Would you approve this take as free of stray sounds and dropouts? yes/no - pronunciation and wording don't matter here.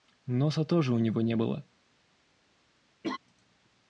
no